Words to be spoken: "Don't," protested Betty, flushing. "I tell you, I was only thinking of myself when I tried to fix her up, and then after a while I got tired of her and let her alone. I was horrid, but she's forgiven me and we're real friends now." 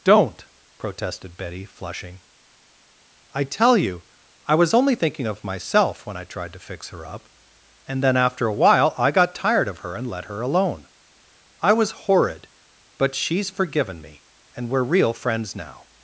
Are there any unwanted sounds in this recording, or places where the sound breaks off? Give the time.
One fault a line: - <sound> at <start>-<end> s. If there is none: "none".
none